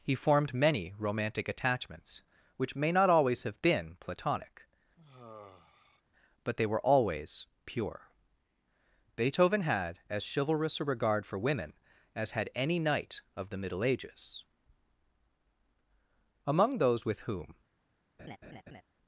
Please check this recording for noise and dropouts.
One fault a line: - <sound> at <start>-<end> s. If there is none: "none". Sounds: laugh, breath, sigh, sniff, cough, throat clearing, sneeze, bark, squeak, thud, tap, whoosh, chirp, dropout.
- sigh at 5.0-6.0 s
- laugh at 18.2-18.8 s